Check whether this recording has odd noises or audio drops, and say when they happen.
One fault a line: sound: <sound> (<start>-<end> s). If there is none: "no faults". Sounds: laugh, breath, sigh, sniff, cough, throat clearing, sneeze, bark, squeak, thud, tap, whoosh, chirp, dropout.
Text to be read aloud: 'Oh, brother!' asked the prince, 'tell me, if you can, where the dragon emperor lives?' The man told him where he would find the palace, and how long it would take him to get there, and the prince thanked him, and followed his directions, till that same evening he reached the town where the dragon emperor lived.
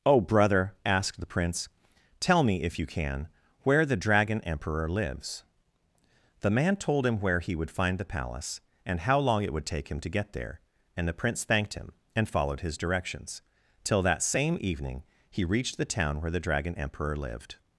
no faults